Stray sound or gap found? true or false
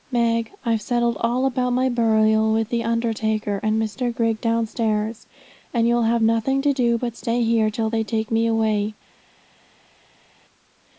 false